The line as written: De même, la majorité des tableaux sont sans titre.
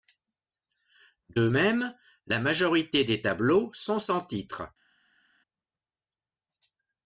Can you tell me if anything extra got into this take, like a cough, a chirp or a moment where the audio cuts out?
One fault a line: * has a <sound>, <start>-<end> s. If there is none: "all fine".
all fine